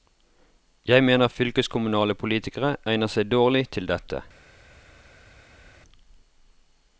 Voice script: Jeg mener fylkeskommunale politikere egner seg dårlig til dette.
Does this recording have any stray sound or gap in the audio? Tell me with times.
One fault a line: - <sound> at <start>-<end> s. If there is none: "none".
none